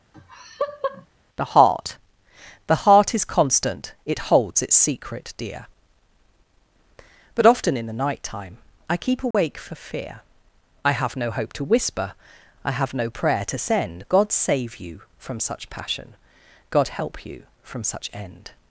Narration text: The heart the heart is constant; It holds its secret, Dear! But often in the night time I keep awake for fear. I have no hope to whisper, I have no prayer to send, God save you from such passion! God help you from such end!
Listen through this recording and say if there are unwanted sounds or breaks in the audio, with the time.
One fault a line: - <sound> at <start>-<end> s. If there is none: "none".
- laugh at 0.1-1.1 s
- dropout at 9.3-9.3 s